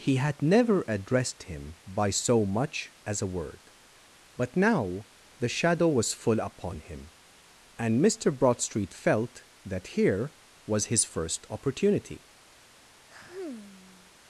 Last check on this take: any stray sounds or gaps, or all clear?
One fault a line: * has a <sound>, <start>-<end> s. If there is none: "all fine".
* has a sigh, 13.1-14.1 s